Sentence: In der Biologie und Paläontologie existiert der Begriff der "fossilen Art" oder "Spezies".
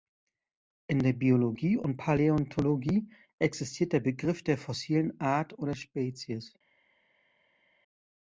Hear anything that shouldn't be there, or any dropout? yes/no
no